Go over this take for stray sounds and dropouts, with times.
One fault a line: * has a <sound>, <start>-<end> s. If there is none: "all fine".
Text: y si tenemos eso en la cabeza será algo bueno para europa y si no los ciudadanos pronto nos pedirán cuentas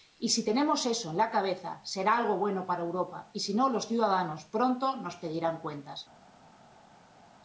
all fine